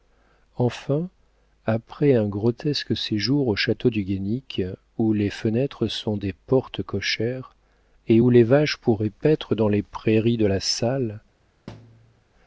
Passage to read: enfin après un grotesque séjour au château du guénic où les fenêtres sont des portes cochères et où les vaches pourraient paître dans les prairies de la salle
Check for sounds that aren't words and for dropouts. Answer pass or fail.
fail